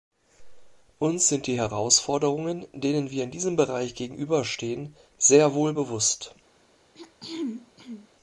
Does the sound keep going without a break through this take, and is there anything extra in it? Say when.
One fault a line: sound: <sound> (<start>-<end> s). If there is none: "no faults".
sound: throat clearing (6.9-8.1 s)